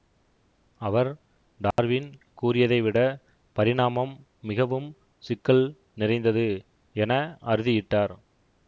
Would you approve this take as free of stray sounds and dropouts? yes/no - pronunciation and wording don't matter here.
no